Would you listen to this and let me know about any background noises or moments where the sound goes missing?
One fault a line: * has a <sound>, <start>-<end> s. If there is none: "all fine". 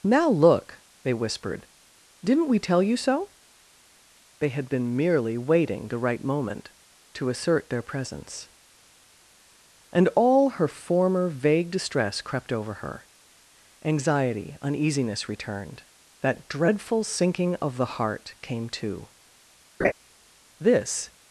* has a laugh, 19.8-19.9 s